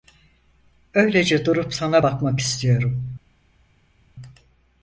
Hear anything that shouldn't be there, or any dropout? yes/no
no